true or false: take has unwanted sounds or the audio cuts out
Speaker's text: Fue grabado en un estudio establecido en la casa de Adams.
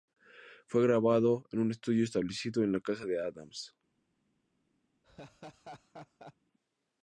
true